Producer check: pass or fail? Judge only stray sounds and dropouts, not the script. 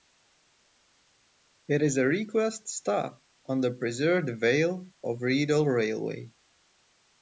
pass